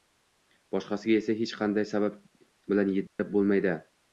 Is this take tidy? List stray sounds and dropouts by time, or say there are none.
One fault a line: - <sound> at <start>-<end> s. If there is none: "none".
- dropout at 3.1-3.2 s